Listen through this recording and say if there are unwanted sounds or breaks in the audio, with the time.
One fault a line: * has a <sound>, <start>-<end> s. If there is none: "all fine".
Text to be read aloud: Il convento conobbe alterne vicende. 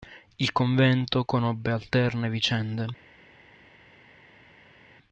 all fine